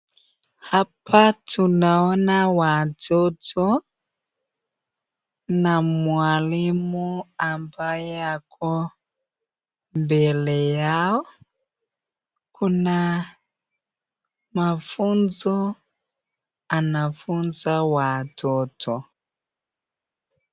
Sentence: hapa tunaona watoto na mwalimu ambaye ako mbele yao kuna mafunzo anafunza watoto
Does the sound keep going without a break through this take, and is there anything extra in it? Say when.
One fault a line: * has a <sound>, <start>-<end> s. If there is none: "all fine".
all fine